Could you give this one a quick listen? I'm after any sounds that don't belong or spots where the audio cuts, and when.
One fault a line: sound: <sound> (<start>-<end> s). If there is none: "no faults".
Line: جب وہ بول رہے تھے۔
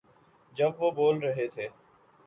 no faults